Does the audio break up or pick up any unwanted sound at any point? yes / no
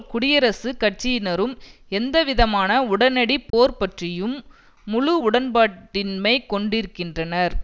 yes